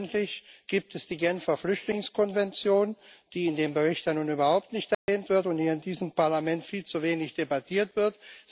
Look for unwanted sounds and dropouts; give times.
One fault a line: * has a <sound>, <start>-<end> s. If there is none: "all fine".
* has a dropout, 4.9-5.1 s